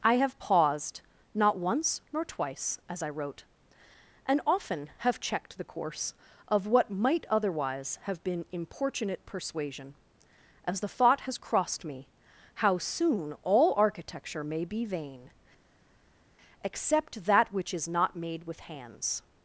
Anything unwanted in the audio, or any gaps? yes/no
no